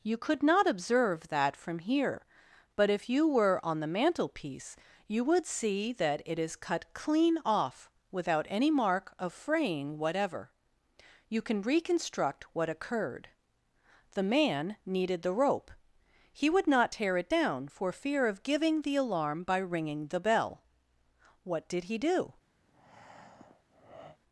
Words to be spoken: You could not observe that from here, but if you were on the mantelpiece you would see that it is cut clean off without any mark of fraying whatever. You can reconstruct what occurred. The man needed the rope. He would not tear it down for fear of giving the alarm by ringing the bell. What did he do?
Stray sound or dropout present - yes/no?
yes